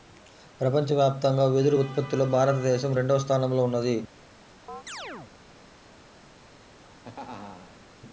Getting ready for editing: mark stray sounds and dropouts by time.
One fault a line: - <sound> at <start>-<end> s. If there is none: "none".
- chirp at 4.7-5.3 s
- laugh at 6.7-7.8 s